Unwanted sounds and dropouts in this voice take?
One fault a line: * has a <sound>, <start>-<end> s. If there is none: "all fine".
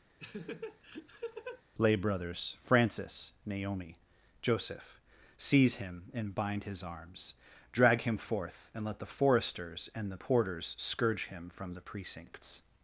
* has a laugh, 0.2-1.6 s